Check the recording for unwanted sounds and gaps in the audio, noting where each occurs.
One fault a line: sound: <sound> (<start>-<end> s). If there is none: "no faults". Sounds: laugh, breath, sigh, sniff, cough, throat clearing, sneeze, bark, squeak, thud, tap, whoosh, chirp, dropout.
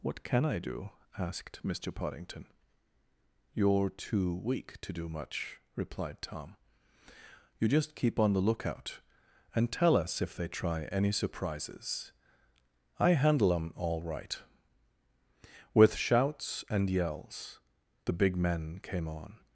no faults